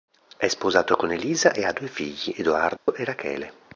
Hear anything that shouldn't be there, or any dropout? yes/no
yes